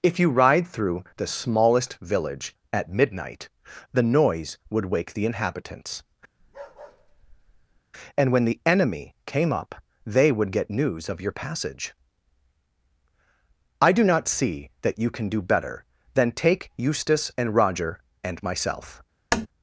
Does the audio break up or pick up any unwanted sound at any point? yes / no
yes